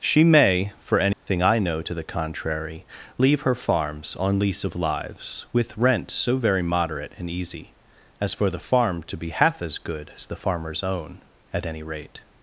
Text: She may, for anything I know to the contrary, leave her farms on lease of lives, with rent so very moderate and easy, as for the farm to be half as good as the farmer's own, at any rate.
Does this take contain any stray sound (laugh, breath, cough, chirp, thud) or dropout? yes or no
yes